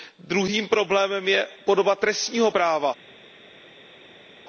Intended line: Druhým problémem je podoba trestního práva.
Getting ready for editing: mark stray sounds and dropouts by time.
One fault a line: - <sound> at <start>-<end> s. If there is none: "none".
none